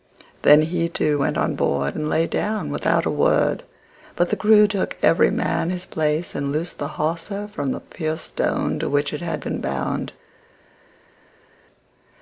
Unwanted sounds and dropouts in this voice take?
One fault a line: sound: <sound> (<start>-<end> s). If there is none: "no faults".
no faults